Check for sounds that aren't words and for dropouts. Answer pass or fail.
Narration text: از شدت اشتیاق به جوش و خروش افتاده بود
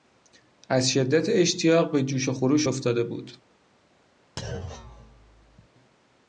fail